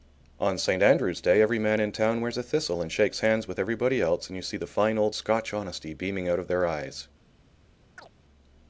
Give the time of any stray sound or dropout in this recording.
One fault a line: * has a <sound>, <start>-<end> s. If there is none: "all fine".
* has a chirp, 8.0-8.1 s